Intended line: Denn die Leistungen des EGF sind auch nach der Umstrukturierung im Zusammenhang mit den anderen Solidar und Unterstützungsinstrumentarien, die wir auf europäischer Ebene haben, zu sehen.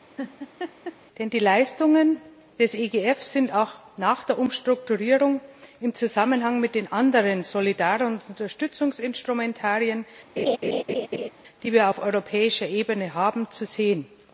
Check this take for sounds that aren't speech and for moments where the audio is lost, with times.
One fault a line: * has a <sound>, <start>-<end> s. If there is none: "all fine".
* has a laugh, 0.2-1.0 s
* has a laugh, 10.4-11.3 s